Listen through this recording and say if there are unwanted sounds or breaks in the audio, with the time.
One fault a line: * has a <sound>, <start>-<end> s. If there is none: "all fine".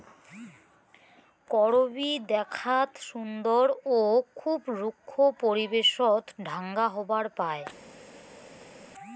all fine